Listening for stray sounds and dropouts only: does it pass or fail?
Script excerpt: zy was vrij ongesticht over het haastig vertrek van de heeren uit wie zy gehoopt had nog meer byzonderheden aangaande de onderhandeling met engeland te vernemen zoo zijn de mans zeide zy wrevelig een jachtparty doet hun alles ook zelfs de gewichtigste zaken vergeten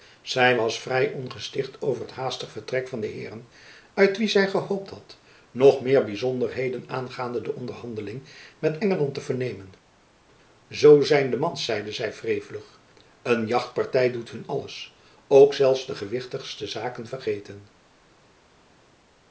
pass